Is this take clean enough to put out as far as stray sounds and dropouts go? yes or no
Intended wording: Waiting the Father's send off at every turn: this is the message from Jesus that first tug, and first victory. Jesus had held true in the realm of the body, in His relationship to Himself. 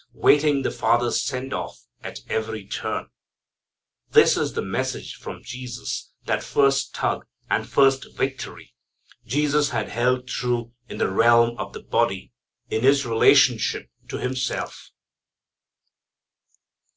yes